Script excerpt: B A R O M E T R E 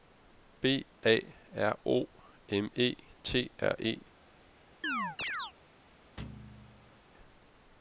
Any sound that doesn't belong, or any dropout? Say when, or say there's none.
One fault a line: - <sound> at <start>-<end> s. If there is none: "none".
- chirp at 4.8-5.5 s
- thud at 6.2-7.0 s